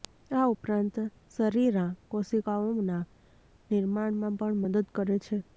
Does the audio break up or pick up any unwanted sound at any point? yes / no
no